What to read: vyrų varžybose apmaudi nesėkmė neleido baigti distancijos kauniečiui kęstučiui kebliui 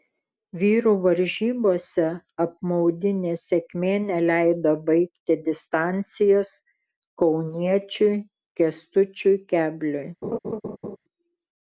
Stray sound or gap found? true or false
true